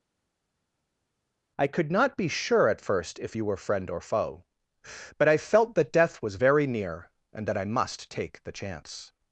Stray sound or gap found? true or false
false